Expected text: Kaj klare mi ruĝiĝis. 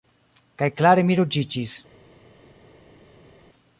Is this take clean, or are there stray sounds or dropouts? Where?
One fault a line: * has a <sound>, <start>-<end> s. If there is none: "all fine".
all fine